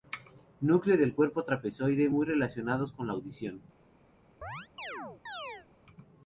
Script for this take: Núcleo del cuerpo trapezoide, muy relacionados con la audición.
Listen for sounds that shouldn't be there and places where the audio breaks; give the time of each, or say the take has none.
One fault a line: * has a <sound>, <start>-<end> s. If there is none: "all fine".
* has a chirp, 4.4-5.7 s